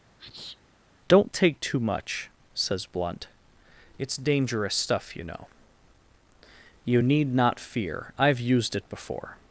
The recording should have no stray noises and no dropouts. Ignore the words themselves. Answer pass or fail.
fail